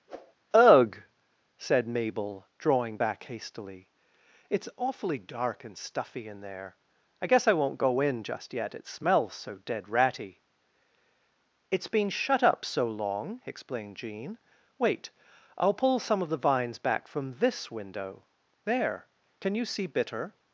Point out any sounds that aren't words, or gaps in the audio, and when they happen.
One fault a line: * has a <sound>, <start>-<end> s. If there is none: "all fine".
* has a whoosh, 0.1-0.3 s